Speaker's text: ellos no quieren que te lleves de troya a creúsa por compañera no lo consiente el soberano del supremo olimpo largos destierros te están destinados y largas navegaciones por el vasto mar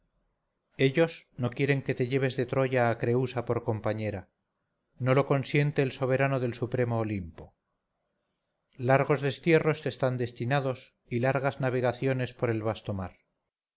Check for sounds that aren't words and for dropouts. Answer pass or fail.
pass